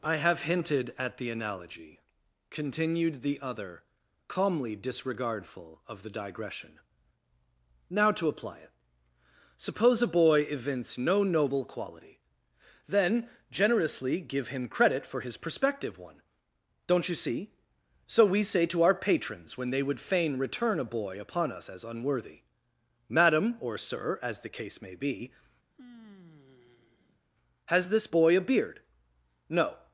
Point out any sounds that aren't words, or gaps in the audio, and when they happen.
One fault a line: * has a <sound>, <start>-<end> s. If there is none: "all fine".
* has a sigh, 25.7-27.3 s